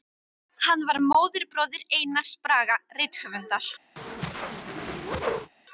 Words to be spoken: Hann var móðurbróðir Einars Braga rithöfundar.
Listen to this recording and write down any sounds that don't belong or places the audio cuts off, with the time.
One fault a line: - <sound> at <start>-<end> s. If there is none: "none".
- whoosh at 4.0-5.5 s